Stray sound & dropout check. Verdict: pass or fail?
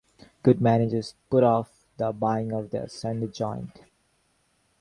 pass